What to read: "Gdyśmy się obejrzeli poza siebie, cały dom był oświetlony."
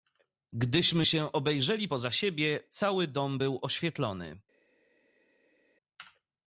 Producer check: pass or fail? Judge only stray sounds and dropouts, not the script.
pass